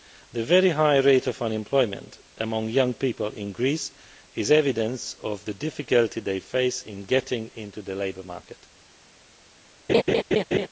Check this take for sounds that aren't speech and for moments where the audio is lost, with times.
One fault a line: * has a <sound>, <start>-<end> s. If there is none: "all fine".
* has a laugh, 9.9-10.7 s